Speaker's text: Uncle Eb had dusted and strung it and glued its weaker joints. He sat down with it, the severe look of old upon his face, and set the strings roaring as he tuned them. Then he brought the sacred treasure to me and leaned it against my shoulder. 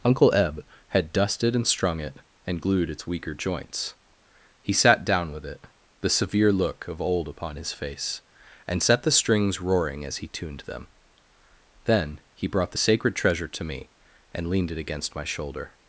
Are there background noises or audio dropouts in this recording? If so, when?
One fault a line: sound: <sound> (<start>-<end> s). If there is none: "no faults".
no faults